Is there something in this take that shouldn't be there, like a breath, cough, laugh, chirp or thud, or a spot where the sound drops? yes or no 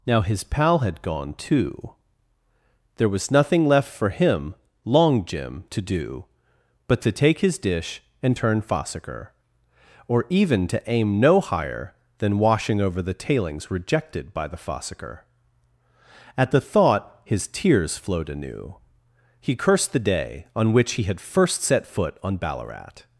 no